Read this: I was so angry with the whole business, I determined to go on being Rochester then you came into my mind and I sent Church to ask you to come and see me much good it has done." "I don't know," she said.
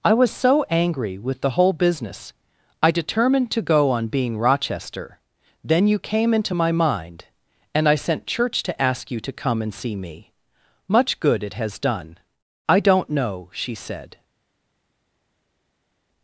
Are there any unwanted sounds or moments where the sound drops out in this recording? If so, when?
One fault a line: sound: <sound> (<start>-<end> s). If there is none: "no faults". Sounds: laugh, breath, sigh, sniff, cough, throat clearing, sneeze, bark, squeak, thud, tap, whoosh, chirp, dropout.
no faults